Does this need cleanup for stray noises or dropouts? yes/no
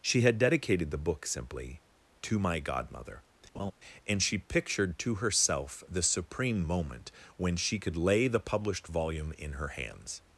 yes